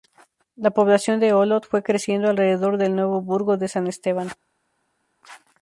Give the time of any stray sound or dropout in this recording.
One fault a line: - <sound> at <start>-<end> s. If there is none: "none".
none